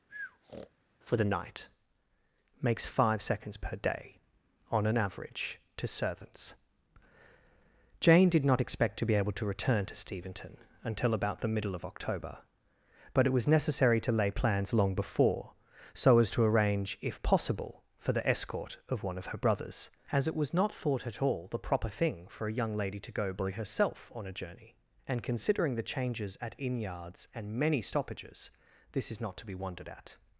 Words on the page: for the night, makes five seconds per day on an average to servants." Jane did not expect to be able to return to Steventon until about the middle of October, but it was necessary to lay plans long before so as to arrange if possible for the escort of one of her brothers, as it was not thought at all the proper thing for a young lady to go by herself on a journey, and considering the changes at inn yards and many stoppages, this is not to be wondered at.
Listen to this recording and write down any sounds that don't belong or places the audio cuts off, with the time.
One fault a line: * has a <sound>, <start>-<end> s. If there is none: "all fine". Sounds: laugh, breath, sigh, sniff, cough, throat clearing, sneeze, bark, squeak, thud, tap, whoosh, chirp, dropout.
* has a breath, 0.1-0.7 s